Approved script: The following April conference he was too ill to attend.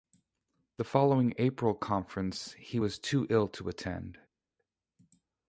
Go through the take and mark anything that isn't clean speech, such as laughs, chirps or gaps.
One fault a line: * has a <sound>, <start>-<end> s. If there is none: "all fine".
all fine